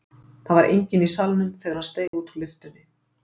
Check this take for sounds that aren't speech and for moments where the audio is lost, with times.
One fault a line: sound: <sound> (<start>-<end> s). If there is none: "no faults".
sound: dropout (2.1-2.1 s)